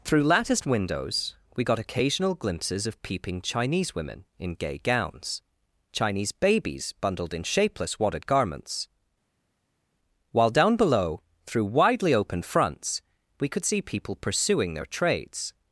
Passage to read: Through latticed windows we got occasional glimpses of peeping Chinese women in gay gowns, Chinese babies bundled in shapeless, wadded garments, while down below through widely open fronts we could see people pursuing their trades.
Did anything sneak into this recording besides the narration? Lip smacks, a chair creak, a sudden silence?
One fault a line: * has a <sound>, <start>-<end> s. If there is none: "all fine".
all fine